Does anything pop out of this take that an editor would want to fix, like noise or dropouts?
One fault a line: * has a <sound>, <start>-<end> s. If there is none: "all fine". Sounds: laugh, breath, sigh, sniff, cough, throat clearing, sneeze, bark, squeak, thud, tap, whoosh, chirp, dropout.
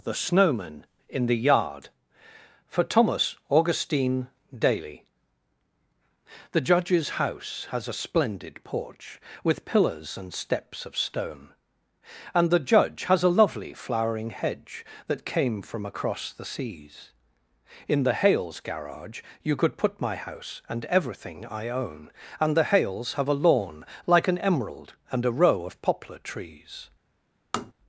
* has a tap, 27.5-27.7 s